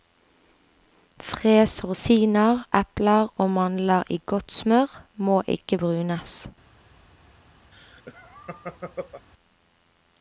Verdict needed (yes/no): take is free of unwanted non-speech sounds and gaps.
no